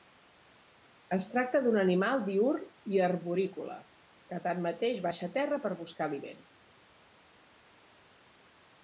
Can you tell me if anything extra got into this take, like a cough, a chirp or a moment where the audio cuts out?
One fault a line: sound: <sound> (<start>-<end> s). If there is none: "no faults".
no faults